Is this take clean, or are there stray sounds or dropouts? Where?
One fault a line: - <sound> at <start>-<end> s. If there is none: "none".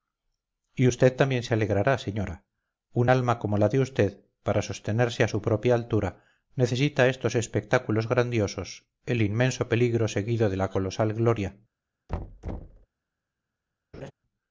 - thud at 12.1-12.9 s
- laugh at 13.9-14.1 s